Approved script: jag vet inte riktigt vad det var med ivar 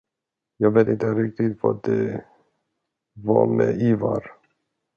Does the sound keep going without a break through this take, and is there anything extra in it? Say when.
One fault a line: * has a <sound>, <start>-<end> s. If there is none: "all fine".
all fine